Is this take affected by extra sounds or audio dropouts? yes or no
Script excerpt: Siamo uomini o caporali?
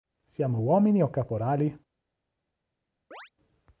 yes